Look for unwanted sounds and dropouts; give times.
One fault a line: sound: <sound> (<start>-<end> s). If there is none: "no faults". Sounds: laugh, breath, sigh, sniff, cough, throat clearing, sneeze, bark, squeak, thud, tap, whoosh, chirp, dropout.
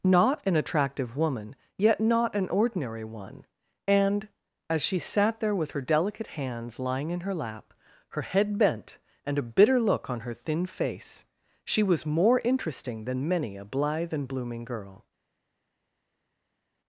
no faults